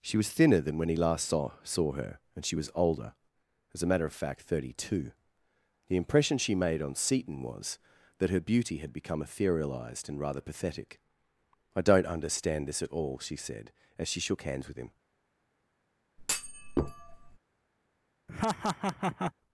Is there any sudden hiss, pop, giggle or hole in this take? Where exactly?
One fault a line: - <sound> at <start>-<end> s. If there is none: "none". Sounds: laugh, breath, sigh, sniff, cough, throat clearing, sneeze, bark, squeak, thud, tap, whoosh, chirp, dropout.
- thud at 16.2-17.4 s
- laugh at 18.3-19.3 s